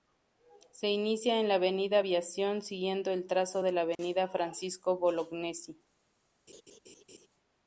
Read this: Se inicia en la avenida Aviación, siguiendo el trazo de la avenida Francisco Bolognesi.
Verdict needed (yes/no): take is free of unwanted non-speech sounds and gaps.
no